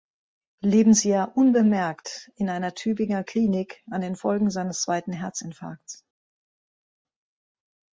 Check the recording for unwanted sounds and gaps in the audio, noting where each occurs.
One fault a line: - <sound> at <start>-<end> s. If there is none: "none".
none